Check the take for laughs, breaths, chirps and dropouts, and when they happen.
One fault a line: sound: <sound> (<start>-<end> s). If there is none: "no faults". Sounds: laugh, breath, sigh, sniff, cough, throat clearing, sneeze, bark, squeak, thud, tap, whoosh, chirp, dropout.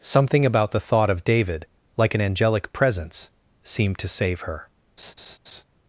sound: laugh (5.0-5.6 s)